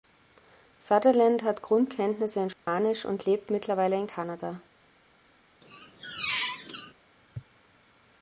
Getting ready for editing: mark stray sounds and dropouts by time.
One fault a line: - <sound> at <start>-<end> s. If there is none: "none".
- dropout at 2.5-2.7 s
- squeak at 5.6-6.9 s